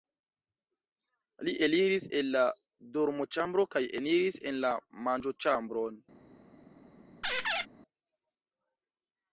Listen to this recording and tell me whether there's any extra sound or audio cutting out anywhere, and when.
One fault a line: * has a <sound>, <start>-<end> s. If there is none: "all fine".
* has a squeak, 7.2-7.7 s